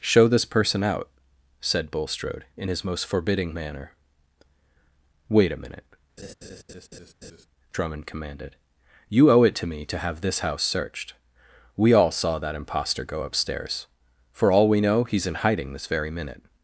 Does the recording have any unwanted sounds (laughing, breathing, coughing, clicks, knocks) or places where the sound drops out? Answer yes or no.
yes